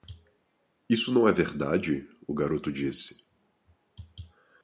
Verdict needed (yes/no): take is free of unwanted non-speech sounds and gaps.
yes